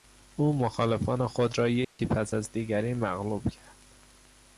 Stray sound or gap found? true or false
true